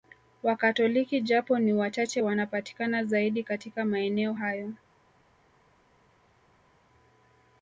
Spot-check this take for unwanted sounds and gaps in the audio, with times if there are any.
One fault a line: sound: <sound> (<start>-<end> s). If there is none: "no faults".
no faults